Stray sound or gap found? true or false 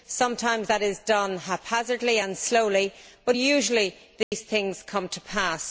true